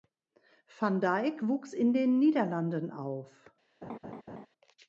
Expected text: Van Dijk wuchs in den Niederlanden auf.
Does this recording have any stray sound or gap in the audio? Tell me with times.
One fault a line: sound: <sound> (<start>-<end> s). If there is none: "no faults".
sound: laugh (3.8-4.5 s)